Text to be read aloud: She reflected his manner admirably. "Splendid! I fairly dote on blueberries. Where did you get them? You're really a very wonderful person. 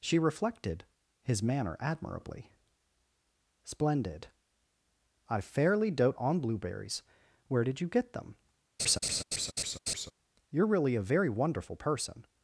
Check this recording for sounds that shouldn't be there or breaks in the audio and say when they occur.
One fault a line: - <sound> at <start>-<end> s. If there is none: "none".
- laugh at 8.8-10.1 s